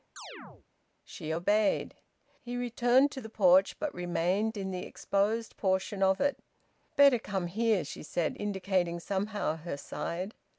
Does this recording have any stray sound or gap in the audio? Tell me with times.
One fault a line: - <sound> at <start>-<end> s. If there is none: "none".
- chirp at 0.2-0.7 s